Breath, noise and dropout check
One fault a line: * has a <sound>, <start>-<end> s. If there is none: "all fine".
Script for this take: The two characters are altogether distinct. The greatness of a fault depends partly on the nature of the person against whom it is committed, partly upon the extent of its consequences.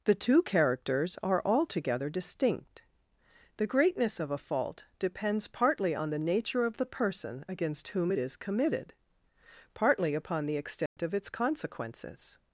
* has a dropout, 10.9-11.0 s